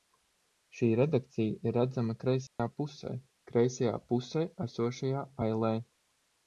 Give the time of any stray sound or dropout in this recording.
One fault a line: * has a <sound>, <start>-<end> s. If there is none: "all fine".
* has a dropout, 2.5-2.6 s